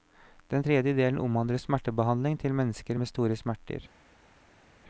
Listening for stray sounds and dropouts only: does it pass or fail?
pass